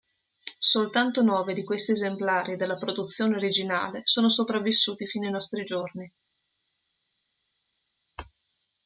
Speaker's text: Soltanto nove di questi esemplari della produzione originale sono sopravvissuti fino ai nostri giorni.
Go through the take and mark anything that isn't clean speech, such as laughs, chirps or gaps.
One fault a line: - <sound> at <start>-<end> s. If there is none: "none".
none